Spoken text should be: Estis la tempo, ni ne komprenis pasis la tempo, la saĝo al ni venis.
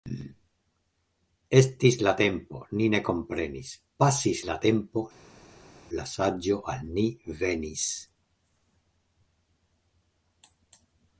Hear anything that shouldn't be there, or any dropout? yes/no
no